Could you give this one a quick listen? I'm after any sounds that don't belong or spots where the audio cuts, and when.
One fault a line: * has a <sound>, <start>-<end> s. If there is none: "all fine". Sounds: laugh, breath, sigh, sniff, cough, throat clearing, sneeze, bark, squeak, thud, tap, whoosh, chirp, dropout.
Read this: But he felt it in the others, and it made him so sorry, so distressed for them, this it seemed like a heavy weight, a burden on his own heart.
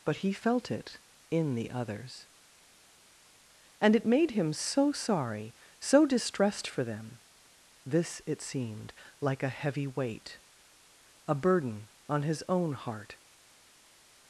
all fine